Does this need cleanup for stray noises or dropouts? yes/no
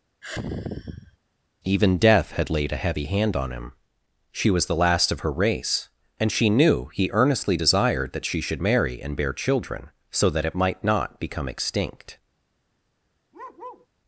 yes